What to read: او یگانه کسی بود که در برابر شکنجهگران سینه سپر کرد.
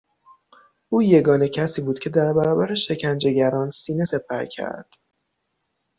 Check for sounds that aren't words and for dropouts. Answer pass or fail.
pass